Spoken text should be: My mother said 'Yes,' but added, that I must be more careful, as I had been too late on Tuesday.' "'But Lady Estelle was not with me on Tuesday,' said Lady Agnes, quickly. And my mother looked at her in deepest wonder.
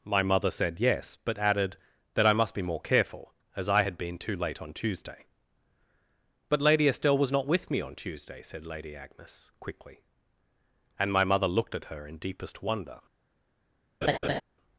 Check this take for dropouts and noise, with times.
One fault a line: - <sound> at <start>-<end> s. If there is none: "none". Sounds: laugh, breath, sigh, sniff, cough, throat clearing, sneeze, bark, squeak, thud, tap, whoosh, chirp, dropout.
- laugh at 14.0-14.4 s